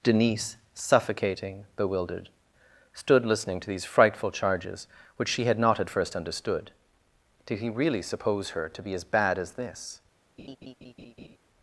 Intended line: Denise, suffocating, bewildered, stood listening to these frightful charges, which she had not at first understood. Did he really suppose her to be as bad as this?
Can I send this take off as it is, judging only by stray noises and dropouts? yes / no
no